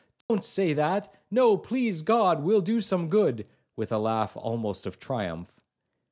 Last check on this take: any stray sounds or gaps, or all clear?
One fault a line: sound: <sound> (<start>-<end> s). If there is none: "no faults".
sound: dropout (0.2-0.3 s)